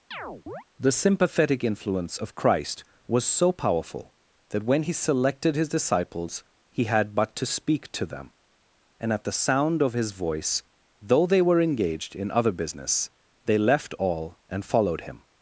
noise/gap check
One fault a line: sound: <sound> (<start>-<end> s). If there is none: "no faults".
sound: chirp (0.1-0.6 s)